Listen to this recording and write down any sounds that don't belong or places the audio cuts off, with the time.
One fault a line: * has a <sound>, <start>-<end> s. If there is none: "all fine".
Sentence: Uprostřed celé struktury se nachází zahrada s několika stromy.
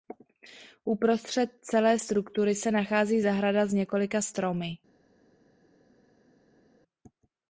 all fine